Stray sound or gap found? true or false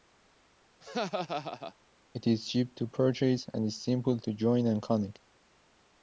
true